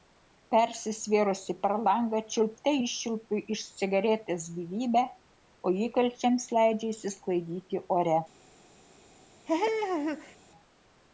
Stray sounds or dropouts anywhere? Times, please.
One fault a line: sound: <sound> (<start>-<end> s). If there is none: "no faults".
sound: laugh (9.5-10.4 s)